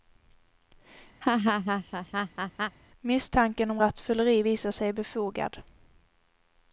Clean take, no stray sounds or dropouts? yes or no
no